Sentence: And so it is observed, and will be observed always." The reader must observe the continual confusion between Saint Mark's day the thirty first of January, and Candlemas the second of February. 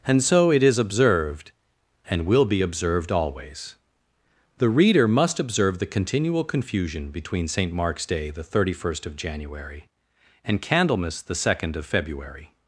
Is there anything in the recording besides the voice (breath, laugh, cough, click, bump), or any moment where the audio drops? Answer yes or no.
no